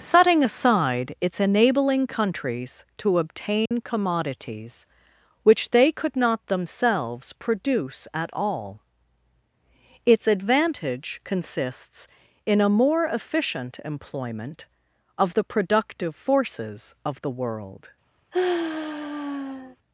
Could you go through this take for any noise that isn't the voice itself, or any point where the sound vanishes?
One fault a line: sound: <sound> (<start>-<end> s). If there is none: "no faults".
sound: dropout (3.7-3.7 s)
sound: sigh (18.3-19.8 s)